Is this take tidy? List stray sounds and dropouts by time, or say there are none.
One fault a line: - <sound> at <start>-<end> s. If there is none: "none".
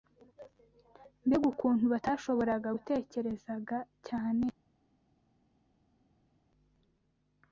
none